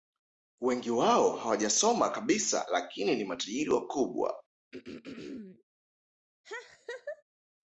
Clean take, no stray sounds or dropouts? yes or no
no